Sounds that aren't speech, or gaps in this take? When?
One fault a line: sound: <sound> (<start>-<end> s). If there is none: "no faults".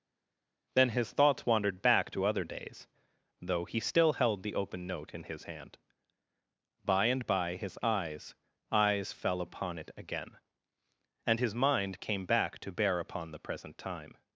no faults